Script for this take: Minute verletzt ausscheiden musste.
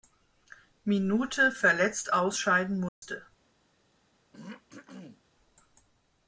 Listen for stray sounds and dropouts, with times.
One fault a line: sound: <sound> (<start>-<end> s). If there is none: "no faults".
sound: dropout (2.9-3.0 s)
sound: throat clearing (4.3-5.2 s)